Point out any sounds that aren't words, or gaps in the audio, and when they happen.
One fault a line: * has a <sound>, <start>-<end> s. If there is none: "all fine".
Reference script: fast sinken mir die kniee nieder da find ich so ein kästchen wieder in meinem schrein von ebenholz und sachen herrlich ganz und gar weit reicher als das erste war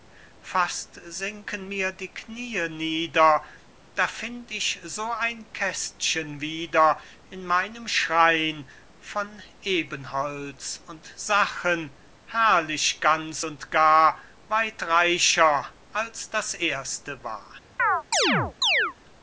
* has a chirp, 17.8-18.9 s